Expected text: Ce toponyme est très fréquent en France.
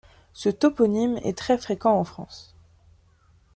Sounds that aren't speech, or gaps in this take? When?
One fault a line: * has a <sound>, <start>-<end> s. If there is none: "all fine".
all fine